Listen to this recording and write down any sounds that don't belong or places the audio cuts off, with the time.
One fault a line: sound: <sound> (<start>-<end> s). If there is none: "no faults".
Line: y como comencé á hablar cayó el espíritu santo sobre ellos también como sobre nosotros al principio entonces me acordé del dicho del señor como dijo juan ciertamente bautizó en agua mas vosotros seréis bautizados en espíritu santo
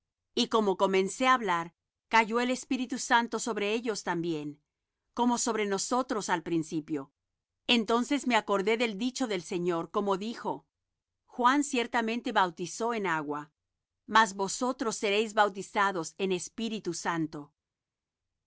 no faults